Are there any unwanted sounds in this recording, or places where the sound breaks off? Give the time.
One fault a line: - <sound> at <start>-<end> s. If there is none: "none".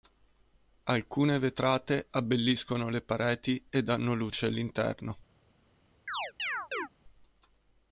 - chirp at 6.1-6.9 s